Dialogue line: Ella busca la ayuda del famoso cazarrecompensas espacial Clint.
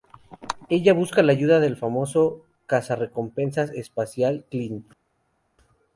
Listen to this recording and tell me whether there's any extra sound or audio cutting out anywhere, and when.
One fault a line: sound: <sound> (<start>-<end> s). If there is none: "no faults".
no faults